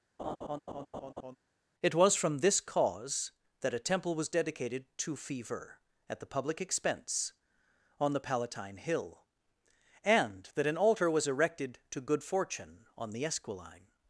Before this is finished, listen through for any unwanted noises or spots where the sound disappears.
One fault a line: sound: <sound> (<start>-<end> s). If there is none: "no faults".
sound: laugh (0.2-1.4 s)